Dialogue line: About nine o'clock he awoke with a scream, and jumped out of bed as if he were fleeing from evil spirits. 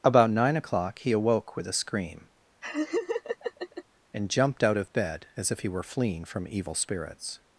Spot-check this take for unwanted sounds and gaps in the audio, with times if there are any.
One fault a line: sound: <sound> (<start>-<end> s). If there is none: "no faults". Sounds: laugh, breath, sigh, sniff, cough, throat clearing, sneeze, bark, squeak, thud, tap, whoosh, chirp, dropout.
sound: laugh (2.6-3.8 s)